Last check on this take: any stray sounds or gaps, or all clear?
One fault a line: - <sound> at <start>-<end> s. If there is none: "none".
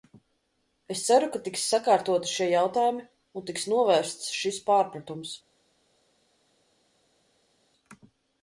none